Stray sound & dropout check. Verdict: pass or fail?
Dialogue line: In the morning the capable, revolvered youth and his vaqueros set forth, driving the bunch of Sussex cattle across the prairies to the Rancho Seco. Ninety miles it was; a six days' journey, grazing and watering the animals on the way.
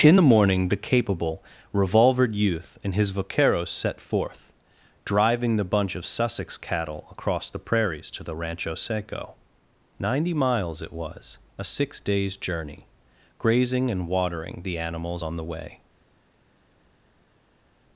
pass